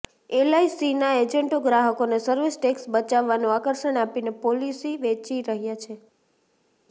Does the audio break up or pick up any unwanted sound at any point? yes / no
no